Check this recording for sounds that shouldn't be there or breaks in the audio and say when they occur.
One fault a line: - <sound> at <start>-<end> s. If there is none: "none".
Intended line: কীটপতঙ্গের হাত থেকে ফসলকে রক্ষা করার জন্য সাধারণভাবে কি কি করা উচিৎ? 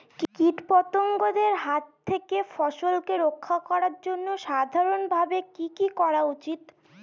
none